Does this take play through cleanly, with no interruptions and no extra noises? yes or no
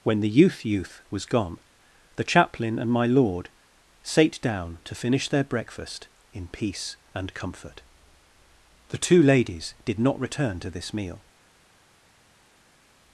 yes